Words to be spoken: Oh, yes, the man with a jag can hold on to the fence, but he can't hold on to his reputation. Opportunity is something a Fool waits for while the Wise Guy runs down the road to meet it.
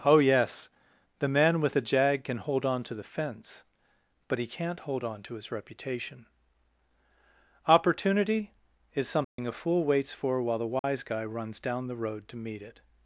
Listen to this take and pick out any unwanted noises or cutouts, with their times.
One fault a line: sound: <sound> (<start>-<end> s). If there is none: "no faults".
sound: dropout (9.2-9.4 s)
sound: dropout (10.8-10.8 s)